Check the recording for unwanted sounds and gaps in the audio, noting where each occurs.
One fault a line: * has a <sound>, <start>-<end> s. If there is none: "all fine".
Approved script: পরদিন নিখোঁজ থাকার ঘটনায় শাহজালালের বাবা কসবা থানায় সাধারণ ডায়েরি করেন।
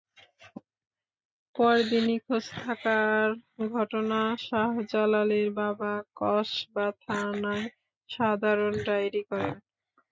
all fine